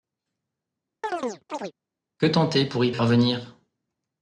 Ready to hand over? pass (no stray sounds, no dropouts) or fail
fail